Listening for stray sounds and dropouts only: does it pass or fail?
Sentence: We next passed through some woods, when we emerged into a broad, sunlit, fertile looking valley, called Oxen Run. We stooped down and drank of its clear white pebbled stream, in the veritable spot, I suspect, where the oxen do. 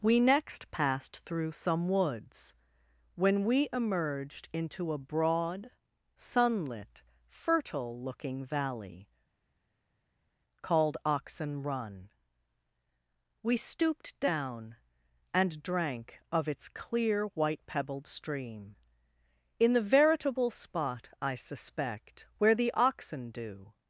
pass